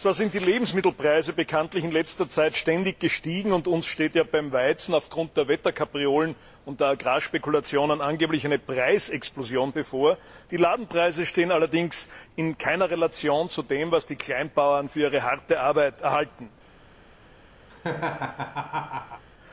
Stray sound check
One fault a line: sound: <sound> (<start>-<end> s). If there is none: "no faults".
sound: laugh (17.7-19.2 s)